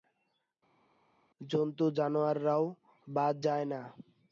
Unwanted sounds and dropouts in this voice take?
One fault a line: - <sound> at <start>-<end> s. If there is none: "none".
none